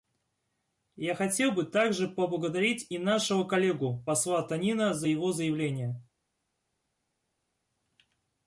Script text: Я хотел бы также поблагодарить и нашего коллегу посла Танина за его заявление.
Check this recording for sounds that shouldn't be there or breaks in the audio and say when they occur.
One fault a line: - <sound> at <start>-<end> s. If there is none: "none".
none